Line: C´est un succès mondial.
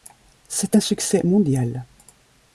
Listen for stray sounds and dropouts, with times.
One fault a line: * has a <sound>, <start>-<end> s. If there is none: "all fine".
all fine